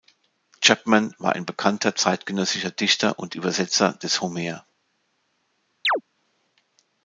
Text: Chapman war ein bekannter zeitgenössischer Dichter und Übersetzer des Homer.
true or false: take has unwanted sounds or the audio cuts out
true